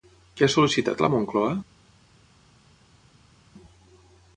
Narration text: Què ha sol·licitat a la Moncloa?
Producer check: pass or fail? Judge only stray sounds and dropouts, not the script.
pass